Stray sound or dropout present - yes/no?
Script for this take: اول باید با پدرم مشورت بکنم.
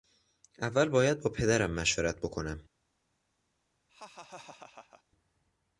yes